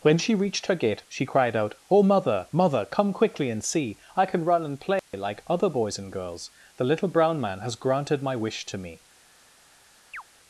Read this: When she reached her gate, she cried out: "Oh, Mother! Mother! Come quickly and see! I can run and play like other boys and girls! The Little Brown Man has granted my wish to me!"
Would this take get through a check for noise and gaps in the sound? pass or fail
fail